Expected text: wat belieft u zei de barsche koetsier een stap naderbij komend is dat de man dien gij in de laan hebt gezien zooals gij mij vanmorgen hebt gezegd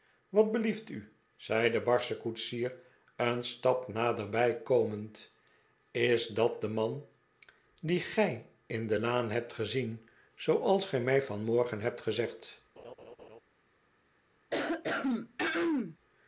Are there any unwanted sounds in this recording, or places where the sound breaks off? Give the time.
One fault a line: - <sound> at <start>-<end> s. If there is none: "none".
- laugh at 12.8-13.4 s
- throat clearing at 14.5-16.0 s